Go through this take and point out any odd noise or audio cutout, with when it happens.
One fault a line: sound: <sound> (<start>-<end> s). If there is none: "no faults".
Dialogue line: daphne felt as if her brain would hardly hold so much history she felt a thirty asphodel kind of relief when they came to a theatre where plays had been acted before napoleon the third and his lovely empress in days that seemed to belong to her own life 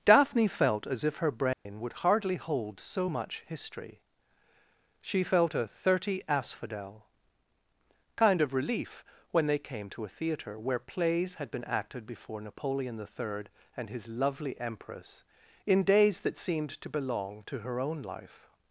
sound: dropout (1.5-1.7 s)